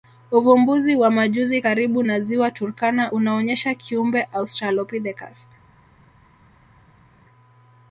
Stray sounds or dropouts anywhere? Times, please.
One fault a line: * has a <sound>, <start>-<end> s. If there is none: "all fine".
all fine